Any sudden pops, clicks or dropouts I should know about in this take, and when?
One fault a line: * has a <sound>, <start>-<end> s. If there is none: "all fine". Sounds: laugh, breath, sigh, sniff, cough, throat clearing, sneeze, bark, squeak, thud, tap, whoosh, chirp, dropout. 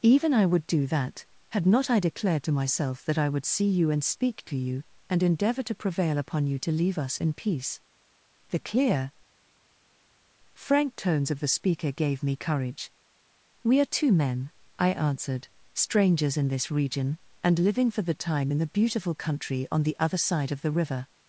all fine